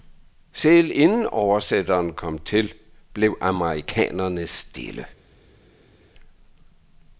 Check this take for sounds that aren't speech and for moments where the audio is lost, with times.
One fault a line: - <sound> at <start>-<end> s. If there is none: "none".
none